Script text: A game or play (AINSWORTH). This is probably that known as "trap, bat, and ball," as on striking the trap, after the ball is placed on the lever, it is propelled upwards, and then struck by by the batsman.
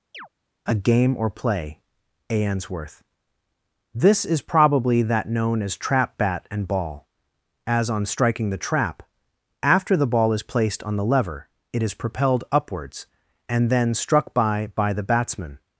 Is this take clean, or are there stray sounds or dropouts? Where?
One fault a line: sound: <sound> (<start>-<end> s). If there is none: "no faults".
sound: chirp (0.1-0.3 s)